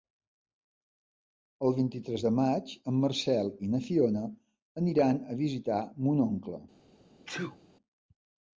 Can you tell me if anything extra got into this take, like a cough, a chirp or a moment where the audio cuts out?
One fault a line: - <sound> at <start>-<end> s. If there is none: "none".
- sneeze at 7.3-7.6 s